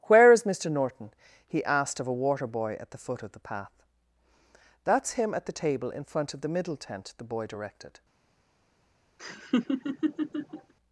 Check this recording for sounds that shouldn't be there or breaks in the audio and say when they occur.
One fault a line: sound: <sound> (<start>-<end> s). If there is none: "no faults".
sound: laugh (9.2-10.7 s)